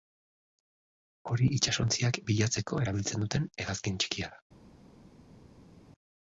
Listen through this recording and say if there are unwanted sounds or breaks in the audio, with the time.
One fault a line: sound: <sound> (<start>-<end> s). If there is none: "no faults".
no faults